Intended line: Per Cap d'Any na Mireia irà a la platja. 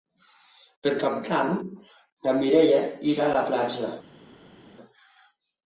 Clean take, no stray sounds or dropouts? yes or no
yes